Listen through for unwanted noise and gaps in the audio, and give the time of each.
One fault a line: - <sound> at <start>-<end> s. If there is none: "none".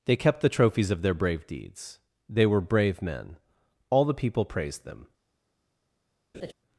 - laugh at 6.3-6.5 s